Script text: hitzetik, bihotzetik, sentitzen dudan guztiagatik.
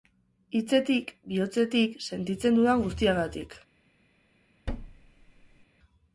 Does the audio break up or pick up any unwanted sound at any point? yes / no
yes